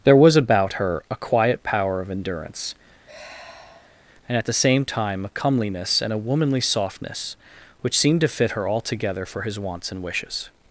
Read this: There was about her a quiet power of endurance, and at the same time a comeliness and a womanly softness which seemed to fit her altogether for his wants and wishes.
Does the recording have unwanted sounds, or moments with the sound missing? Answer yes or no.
yes